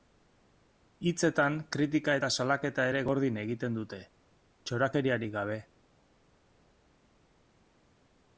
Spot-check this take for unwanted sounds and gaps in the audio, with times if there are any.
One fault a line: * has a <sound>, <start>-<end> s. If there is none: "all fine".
all fine